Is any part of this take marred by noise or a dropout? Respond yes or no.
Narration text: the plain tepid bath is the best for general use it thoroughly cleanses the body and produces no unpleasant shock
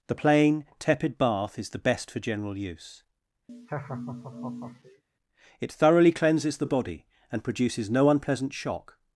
yes